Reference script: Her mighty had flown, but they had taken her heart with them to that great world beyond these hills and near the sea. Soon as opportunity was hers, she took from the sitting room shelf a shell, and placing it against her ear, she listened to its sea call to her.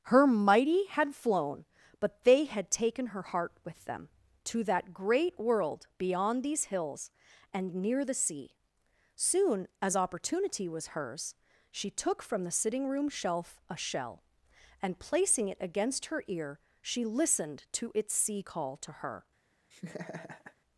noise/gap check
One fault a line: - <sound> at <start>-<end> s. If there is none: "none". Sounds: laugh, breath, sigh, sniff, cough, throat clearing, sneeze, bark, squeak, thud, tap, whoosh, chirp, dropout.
- laugh at 19.7-20.6 s